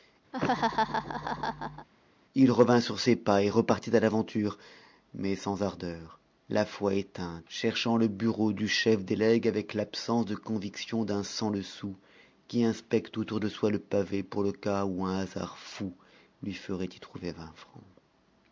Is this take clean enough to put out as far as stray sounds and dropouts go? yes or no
no